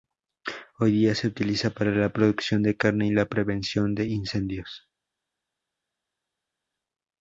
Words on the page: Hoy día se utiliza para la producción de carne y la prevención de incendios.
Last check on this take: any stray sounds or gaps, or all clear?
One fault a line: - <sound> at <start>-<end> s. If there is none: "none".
none